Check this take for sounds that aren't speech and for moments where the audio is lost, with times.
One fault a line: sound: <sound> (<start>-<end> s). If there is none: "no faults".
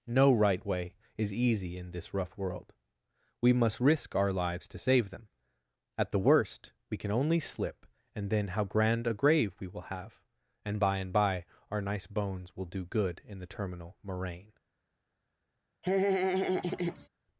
sound: laugh (15.8-17.1 s)